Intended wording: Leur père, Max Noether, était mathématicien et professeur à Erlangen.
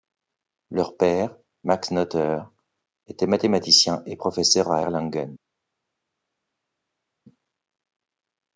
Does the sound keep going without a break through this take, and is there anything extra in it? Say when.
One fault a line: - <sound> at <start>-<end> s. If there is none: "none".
none